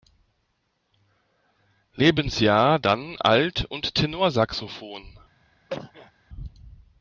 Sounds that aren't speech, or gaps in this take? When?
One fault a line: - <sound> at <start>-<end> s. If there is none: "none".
- cough at 5.7-6.1 s